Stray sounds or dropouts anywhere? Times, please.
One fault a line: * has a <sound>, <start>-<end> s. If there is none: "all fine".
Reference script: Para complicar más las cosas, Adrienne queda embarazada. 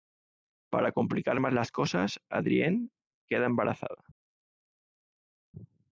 all fine